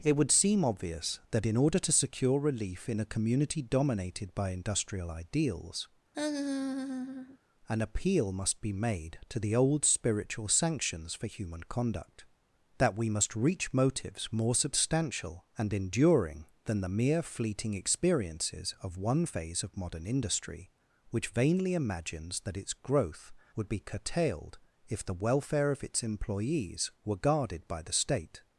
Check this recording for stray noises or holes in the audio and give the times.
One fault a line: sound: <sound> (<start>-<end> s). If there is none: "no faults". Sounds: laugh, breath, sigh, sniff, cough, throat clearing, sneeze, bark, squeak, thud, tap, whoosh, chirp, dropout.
sound: laugh (6.1-7.4 s)